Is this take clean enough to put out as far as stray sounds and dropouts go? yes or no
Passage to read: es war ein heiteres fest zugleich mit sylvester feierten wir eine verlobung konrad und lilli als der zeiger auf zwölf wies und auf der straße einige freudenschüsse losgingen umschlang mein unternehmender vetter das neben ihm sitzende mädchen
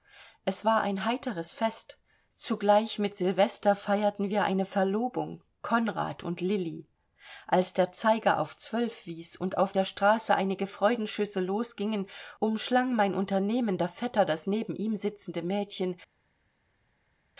yes